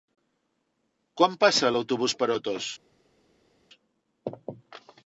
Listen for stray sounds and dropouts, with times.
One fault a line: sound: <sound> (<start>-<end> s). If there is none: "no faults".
no faults